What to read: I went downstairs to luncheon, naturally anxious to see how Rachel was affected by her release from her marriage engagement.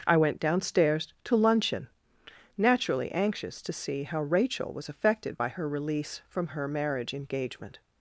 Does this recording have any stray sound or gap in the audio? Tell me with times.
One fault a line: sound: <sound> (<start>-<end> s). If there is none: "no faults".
no faults